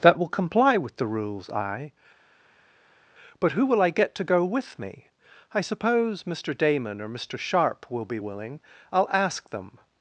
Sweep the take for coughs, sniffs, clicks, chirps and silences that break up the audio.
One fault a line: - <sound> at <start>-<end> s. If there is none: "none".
none